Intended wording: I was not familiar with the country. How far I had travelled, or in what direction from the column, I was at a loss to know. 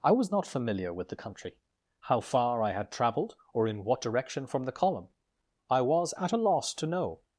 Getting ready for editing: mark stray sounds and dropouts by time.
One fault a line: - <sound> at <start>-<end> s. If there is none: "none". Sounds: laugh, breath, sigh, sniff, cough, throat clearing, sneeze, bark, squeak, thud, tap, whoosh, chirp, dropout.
none